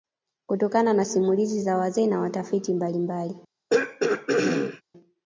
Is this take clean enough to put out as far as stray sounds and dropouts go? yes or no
no